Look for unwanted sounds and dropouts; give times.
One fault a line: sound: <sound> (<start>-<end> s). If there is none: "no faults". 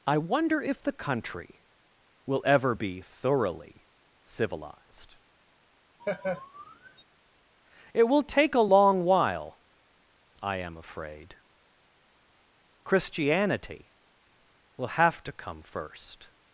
sound: laugh (6.0-7.0 s)